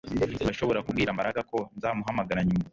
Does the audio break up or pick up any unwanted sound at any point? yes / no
no